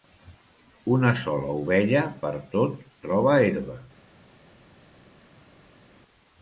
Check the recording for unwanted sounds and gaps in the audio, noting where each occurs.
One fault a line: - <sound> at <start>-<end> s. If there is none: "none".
none